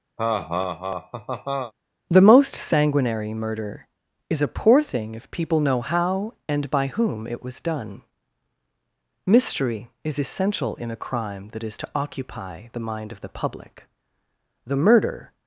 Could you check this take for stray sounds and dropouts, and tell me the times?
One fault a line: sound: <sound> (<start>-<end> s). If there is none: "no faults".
sound: laugh (0.2-1.7 s)